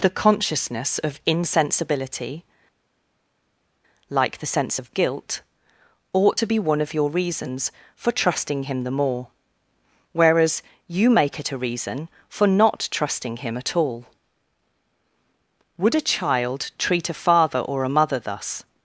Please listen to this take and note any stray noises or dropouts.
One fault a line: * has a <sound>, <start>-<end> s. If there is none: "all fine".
all fine